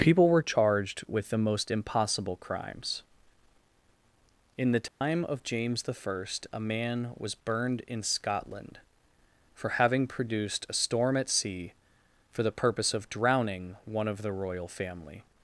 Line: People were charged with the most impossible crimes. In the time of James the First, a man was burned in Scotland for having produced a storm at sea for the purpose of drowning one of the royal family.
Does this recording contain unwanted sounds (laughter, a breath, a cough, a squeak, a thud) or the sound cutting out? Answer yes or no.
yes